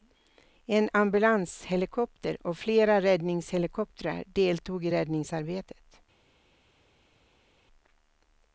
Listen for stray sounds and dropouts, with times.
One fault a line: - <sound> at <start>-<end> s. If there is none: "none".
none